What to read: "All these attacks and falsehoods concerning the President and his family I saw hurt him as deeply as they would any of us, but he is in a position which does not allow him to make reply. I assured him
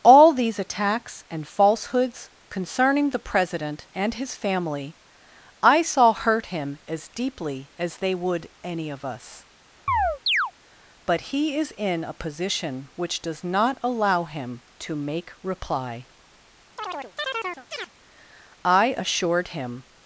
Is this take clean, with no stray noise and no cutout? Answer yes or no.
no